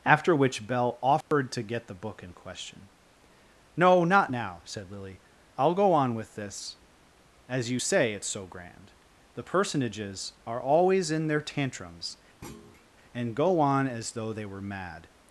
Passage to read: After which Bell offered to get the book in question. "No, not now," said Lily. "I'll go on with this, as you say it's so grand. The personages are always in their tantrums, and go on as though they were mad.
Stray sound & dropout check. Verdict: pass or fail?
fail